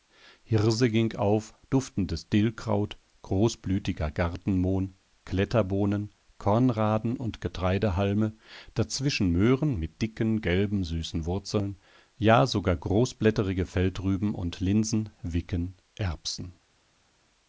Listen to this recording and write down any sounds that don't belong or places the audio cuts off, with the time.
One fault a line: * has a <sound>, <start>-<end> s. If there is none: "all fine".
all fine